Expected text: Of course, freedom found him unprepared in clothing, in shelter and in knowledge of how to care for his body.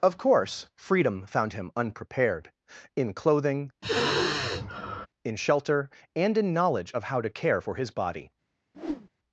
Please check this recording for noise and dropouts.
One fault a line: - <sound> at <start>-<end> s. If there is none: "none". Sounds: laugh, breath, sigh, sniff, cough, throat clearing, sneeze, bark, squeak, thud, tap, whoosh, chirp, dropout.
- sigh at 3.8-5.1 s
- whoosh at 8.7-9.1 s